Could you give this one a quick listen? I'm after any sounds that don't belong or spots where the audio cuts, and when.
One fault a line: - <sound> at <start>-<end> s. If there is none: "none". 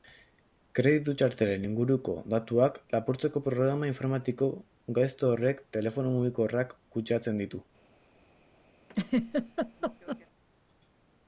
- laugh at 8.9-10.3 s